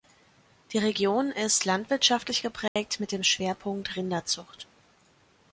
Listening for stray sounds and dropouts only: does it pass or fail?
fail